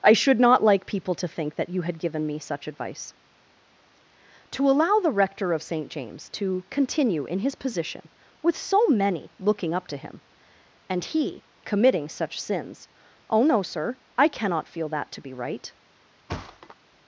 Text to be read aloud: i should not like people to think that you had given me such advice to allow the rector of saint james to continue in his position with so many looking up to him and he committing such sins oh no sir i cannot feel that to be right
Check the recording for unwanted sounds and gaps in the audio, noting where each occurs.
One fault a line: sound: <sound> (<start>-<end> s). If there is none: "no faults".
sound: thud (16.3-16.8 s)